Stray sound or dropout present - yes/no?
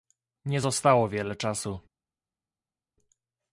no